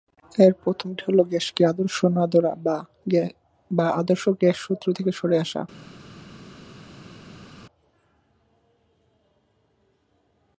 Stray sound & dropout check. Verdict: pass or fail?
pass